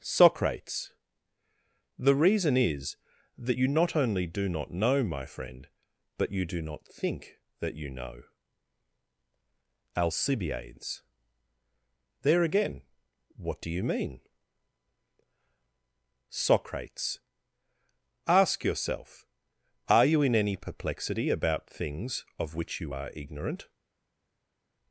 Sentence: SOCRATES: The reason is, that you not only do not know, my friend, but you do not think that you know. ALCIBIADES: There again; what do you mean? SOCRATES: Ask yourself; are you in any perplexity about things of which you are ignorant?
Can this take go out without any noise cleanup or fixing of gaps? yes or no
yes